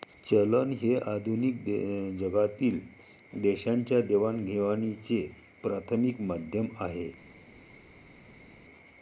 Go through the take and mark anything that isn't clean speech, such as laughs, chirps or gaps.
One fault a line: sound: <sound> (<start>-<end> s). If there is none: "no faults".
no faults